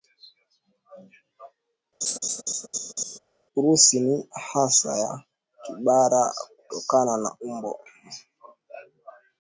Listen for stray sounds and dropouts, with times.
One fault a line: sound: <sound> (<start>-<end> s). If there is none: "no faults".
sound: laugh (2.0-3.2 s)